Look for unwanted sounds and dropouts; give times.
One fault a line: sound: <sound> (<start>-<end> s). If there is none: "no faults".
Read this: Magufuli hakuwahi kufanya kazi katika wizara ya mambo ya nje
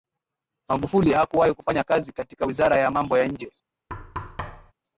sound: thud (3.9-4.7 s)